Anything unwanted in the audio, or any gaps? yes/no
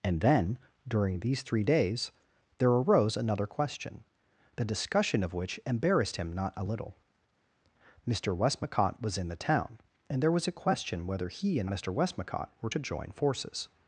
no